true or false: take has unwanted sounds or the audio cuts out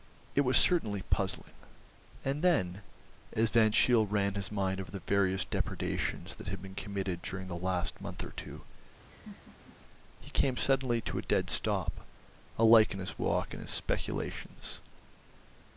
true